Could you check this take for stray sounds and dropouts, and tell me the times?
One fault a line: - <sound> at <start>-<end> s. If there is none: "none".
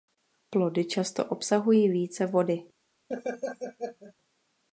- laugh at 3.1-4.1 s